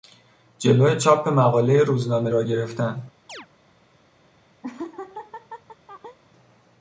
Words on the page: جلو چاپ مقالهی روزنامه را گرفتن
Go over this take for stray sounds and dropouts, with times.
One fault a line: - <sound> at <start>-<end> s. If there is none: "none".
- chirp at 3.3-3.5 s
- laugh at 4.6-6.2 s